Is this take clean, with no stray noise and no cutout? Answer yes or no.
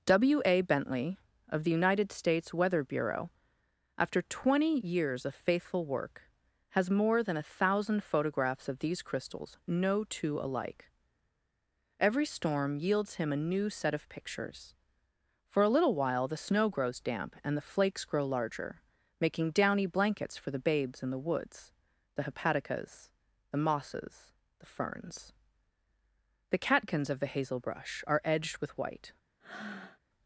no